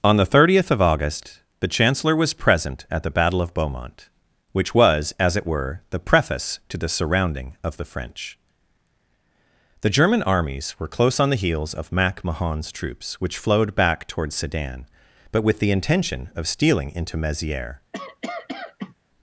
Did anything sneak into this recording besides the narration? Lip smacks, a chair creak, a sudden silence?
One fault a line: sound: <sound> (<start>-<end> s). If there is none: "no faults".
sound: cough (17.9-18.9 s)